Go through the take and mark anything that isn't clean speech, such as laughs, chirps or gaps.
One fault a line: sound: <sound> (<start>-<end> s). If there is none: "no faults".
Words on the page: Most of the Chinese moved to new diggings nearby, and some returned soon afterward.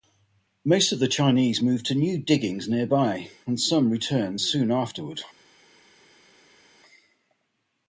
no faults